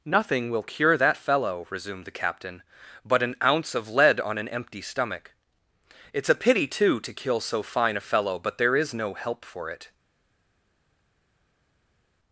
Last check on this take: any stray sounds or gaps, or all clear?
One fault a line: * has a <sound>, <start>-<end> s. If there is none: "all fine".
all fine